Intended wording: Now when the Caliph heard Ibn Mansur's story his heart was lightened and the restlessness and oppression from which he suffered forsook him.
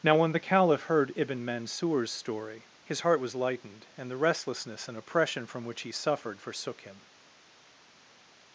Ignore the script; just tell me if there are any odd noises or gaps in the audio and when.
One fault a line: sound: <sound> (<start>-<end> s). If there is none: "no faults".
no faults